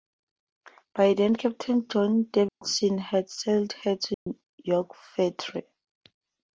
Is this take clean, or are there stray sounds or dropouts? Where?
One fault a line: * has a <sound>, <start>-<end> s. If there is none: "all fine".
* has a dropout, 2.5-2.6 s
* has a dropout, 4.1-4.3 s